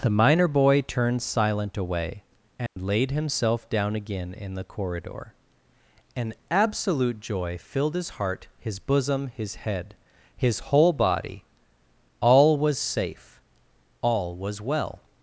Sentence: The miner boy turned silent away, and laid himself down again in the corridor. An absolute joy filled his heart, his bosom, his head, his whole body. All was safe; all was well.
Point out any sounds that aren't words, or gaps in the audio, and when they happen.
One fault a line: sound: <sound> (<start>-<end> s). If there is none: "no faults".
sound: dropout (2.7-2.8 s)